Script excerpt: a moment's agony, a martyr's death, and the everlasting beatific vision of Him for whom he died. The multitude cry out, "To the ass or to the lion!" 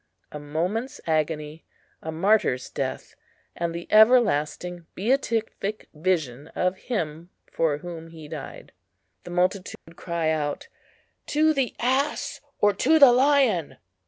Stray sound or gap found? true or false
true